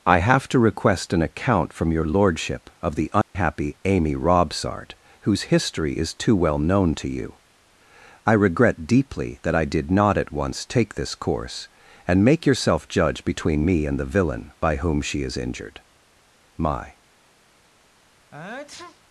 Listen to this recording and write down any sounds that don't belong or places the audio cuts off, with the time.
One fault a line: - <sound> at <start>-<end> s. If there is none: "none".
- dropout at 3.2-3.4 s
- sneeze at 18.3-19.0 s